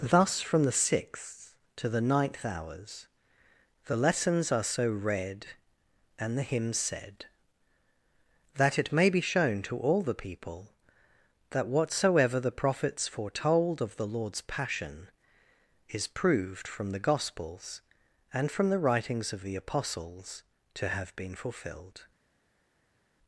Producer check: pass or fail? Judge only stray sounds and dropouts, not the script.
pass